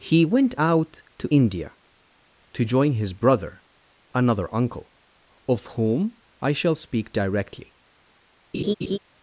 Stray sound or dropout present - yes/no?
yes